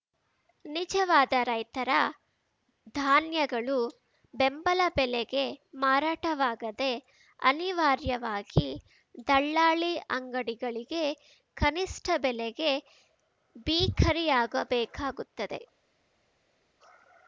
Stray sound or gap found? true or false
false